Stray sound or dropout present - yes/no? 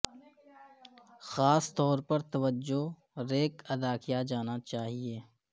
no